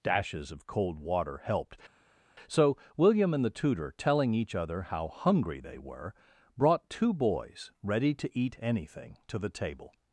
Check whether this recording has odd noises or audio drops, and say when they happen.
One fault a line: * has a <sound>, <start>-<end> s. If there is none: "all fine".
all fine